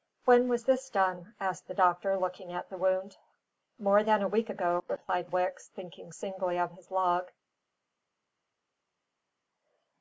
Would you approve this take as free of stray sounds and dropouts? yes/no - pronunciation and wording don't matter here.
yes